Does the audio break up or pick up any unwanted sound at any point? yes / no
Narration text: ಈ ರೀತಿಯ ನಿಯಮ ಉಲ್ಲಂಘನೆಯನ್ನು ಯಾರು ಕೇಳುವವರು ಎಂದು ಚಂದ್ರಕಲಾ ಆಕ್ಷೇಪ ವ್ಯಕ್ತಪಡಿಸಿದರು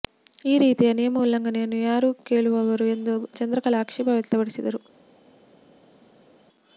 no